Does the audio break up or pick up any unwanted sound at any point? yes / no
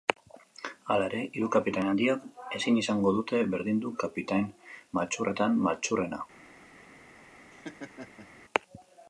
yes